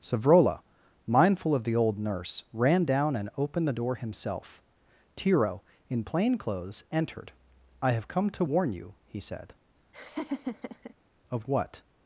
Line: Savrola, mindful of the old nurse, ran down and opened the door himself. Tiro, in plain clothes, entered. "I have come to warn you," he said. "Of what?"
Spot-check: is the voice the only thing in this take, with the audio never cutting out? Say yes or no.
no